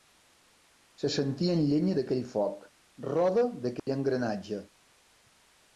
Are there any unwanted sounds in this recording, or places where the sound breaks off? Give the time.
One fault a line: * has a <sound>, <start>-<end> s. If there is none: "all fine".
* has a dropout, 3.8-3.9 s